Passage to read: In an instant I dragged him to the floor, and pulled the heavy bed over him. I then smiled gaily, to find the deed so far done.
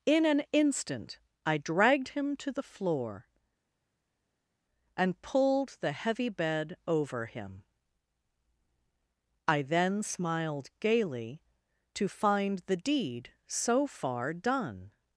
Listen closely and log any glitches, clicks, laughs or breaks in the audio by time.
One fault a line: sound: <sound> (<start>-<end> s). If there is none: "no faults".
no faults